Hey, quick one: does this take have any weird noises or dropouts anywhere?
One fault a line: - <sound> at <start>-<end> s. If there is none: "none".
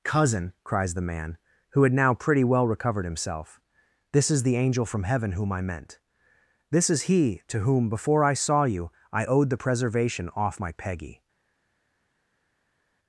none